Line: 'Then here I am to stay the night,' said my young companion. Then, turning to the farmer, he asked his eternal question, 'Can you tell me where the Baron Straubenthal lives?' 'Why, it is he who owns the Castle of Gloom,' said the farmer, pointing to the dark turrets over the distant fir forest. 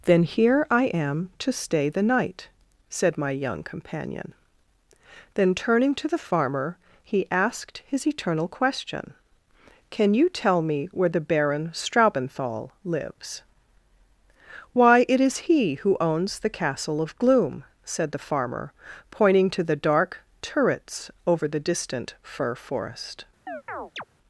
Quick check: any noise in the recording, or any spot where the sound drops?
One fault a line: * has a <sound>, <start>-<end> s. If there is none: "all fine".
* has a chirp, 23.5-24.0 s